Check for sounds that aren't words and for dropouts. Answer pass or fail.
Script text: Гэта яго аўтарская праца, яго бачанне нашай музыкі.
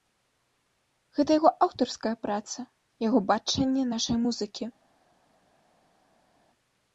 pass